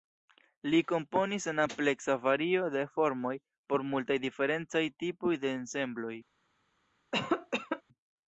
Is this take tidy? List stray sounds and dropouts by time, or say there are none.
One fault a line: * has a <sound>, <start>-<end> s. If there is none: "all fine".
* has a cough, 7.1-7.8 s